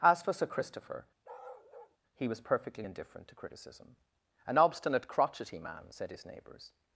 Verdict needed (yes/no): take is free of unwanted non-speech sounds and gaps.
no